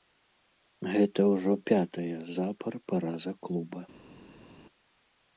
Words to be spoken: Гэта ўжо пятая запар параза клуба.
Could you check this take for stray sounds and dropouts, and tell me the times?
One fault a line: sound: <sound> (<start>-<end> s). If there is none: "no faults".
no faults